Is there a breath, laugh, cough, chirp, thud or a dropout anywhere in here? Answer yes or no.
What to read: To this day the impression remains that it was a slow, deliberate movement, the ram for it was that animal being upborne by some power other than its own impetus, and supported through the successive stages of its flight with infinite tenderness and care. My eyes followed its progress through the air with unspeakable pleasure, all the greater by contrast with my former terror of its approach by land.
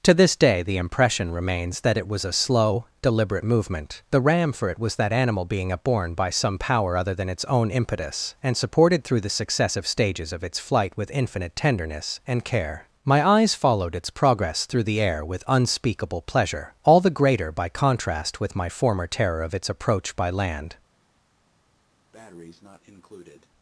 yes